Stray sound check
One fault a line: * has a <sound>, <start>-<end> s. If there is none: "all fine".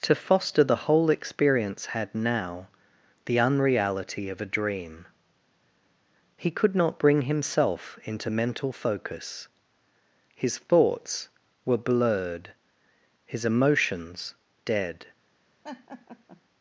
* has a laugh, 15.6-16.4 s